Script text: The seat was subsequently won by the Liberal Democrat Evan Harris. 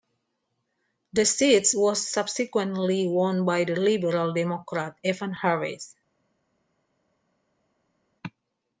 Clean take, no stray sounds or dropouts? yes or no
yes